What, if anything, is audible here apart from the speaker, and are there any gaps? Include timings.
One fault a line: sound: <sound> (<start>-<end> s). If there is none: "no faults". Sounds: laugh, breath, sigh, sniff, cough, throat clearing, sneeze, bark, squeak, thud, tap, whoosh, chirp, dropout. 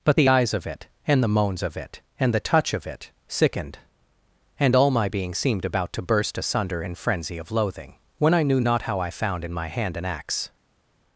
no faults